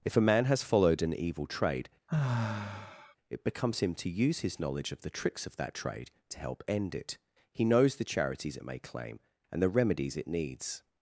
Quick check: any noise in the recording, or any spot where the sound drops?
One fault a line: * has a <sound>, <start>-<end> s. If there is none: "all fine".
* has a sigh, 2.1-3.2 s